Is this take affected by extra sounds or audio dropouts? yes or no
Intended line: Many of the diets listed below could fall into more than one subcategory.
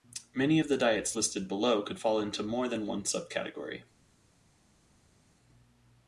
no